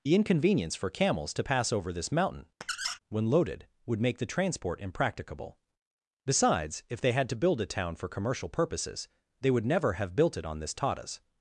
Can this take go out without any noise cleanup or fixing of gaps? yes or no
no